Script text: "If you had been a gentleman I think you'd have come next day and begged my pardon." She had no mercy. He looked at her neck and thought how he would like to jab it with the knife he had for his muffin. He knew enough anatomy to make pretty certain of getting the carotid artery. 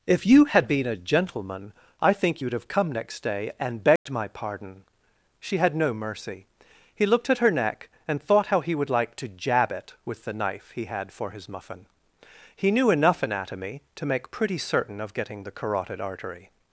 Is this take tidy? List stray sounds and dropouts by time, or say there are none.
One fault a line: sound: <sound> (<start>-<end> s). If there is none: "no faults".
sound: dropout (4.0-4.1 s)